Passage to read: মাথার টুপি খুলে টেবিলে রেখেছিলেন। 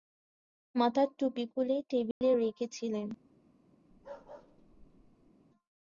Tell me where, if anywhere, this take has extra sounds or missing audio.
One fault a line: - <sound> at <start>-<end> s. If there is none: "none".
- dropout at 2.1-2.2 s
- bark at 3.9-5.3 s